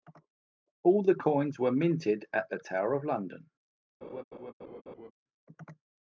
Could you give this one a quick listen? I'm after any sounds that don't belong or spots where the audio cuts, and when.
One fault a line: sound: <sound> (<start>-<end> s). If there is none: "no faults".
sound: laugh (4.0-5.1 s)